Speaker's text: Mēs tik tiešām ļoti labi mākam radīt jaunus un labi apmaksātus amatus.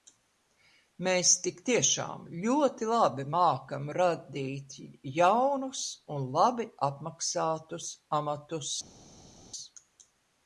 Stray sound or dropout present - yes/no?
no